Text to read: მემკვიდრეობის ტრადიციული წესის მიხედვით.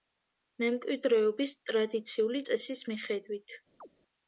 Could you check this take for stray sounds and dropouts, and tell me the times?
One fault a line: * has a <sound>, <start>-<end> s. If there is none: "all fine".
* has a chirp, 3.8-3.9 s